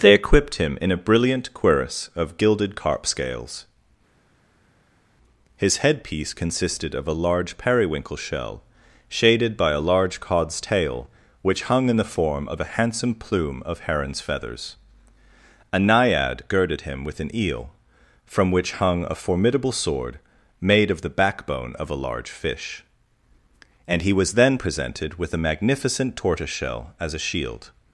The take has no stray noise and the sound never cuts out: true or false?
true